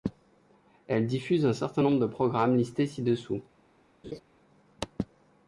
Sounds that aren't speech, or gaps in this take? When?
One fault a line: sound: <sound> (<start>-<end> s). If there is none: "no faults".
sound: laugh (4.0-4.2 s)